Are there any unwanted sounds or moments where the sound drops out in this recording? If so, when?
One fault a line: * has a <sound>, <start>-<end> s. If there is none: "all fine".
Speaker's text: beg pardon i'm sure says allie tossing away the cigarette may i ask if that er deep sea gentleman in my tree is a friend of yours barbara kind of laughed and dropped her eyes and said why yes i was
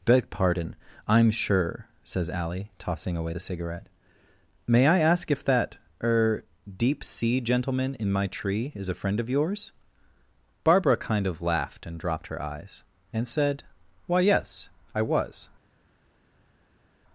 all fine